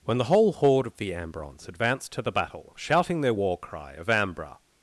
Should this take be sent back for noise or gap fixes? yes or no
no